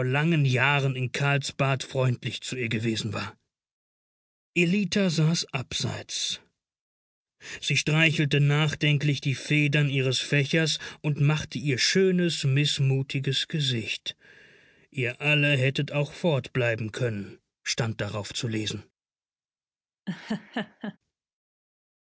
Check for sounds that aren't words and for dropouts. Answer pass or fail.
fail